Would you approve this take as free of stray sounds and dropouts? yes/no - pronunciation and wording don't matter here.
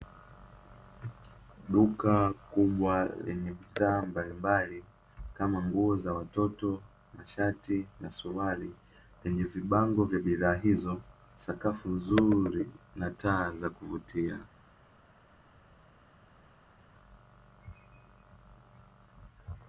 yes